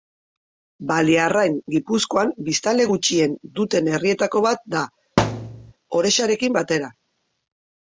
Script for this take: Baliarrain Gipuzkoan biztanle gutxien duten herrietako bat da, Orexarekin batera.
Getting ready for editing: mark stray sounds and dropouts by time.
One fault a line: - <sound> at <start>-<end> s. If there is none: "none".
- thud at 5.2-5.7 s